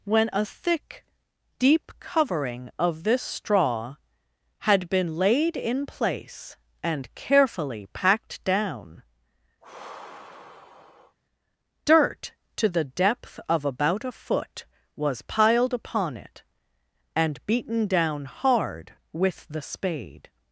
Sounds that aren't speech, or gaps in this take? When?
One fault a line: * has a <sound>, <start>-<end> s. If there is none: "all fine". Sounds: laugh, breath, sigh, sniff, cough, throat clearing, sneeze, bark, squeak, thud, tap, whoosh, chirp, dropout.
* has a sigh, 9.6-11.2 s